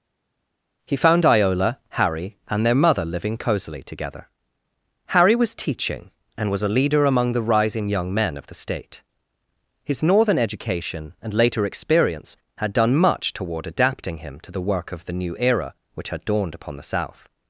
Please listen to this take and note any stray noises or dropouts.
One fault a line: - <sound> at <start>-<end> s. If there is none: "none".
none